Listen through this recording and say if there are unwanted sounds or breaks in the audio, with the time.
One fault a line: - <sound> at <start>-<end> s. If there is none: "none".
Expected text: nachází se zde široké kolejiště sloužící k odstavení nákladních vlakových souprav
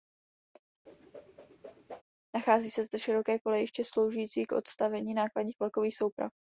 - whoosh at 0.9-2.0 s